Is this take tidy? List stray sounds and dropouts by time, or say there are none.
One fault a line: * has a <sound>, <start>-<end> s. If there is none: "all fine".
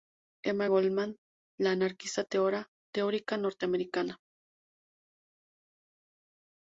all fine